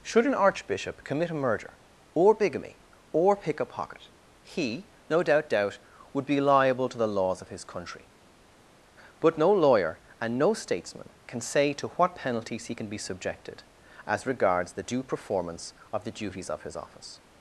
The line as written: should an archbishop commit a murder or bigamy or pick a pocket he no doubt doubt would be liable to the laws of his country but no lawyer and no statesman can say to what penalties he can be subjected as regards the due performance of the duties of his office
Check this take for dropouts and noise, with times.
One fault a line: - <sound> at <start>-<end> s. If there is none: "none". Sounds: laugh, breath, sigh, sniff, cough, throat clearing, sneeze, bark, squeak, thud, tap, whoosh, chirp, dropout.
none